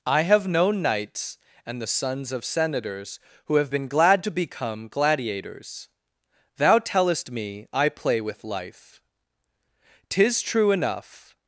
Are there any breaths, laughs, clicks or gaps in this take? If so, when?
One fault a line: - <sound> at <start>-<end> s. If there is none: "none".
none